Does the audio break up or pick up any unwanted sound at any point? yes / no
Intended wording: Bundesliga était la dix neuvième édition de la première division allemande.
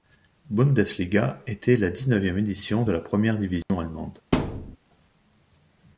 yes